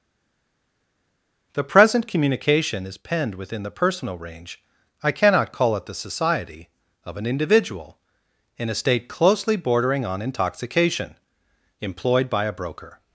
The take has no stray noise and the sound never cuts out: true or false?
true